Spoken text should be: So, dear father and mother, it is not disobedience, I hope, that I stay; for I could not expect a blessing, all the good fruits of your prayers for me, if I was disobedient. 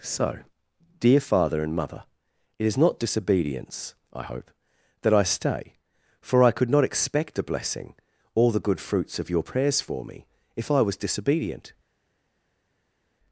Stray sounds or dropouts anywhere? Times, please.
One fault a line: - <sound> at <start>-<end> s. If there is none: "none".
none